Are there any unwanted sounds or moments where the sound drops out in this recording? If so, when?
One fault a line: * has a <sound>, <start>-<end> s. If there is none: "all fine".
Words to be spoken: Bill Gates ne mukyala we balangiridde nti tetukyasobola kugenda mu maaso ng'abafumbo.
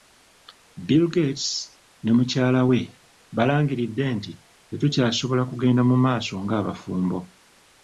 all fine